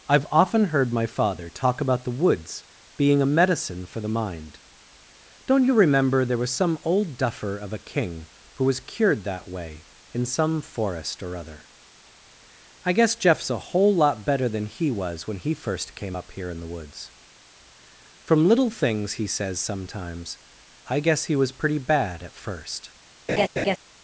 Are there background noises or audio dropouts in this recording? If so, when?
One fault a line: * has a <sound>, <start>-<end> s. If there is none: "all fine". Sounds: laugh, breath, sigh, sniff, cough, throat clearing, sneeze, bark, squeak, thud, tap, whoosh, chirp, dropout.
* has a laugh, 23.3-23.8 s